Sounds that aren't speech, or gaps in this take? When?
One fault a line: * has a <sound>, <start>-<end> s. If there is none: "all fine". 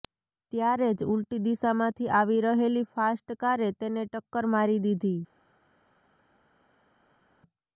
all fine